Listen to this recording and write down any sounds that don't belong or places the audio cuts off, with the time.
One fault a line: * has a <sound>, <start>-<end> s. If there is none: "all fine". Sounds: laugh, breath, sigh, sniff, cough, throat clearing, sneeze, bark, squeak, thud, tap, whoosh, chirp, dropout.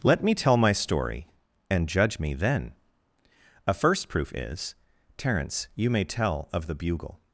all fine